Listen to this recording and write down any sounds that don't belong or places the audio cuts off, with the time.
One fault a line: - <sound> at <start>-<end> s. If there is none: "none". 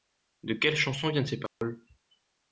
- dropout at 1.5-1.6 s